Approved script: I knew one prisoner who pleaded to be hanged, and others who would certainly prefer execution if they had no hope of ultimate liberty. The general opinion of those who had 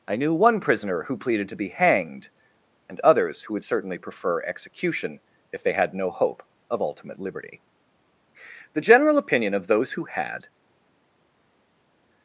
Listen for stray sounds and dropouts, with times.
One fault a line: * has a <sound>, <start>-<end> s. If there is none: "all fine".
all fine